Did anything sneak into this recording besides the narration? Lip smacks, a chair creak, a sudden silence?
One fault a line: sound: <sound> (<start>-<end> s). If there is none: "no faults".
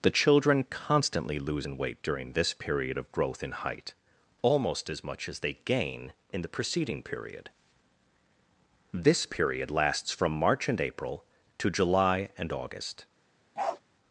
sound: bark (13.6-13.8 s)